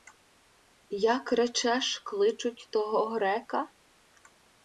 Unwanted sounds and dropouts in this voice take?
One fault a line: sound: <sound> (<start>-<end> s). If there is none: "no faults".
no faults